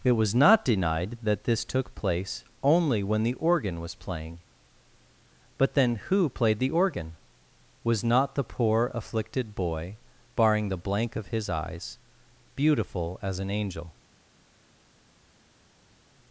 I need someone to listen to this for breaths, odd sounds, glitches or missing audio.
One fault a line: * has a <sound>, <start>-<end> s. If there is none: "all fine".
all fine